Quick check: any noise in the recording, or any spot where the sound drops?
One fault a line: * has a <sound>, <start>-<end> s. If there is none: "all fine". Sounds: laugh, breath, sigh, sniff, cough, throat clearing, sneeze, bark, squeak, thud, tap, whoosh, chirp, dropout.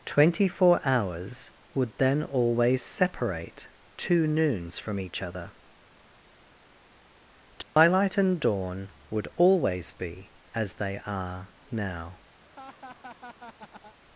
* has a dropout, 7.6-7.8 s
* has a laugh, 12.4-14.0 s